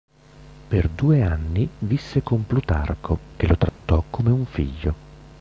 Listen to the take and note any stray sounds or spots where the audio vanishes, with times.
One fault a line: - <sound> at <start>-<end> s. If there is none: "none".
- dropout at 3.7-3.8 s